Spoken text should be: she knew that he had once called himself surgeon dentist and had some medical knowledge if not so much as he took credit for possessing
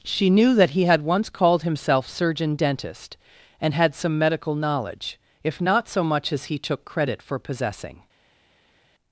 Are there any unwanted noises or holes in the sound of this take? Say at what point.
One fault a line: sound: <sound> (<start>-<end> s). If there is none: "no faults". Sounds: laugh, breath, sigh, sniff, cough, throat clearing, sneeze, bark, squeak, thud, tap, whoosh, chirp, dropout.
no faults